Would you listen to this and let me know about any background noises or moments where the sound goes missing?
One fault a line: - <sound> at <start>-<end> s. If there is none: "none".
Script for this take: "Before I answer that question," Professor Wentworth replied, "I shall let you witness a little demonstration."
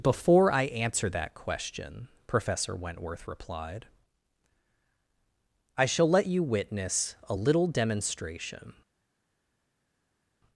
none